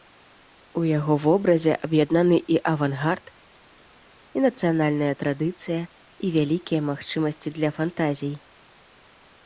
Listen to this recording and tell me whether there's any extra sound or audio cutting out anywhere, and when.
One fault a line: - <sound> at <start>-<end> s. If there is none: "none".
none